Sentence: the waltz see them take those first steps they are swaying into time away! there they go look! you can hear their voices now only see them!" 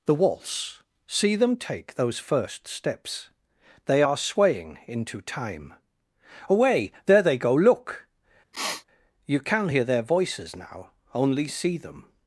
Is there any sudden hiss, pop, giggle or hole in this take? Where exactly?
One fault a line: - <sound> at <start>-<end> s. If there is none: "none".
- sniff at 8.5-8.8 s